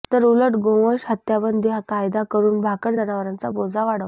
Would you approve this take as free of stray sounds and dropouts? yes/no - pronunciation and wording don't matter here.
yes